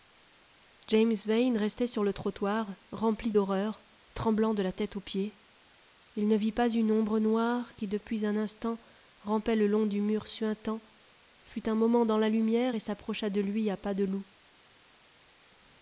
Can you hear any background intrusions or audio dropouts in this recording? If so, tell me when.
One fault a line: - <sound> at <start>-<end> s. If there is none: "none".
none